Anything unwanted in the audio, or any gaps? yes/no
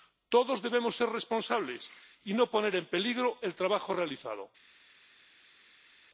no